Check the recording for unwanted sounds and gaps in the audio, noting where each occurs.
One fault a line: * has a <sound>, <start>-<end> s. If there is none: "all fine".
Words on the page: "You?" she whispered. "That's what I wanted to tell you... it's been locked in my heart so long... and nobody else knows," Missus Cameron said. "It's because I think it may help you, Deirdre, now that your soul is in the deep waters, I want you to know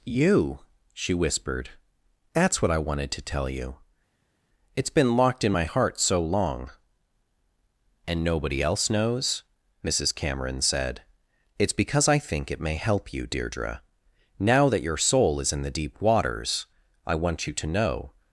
all fine